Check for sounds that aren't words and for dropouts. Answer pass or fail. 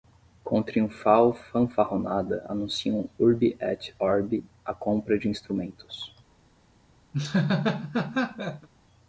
fail